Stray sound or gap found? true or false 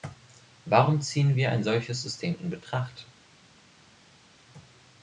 false